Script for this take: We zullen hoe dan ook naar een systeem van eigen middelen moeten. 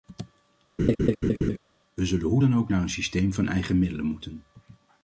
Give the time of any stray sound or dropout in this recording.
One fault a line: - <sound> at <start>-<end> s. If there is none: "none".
- laugh at 0.8-1.6 s